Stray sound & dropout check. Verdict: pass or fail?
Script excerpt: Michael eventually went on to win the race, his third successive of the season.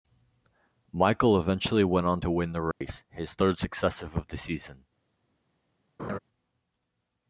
fail